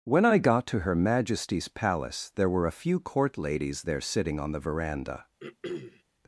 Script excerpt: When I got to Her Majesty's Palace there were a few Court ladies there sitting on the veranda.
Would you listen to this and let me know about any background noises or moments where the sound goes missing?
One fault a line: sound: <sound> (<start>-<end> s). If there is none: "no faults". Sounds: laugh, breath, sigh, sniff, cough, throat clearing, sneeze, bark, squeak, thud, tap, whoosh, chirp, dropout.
sound: throat clearing (5.4-6.0 s)